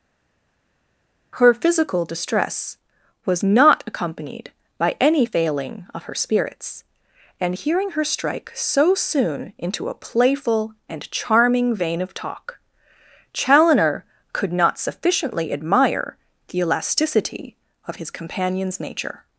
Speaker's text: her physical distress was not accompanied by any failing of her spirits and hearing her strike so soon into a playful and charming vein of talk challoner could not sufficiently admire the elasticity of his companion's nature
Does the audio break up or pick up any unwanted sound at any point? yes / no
no